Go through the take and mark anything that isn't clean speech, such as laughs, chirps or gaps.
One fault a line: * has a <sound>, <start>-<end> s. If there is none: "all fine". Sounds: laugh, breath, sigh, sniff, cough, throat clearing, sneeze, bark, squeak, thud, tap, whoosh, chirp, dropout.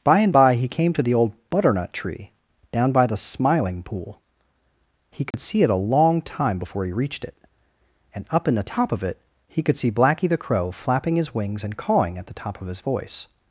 * has a dropout, 5.3-5.3 s